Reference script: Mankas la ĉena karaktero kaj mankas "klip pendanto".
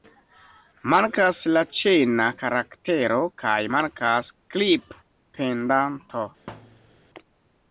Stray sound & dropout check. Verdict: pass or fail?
fail